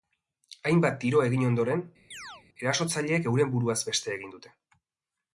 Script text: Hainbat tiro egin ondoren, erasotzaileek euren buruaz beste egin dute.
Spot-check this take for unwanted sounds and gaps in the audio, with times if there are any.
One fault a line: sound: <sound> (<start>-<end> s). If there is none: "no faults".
sound: chirp (2.1-2.4 s)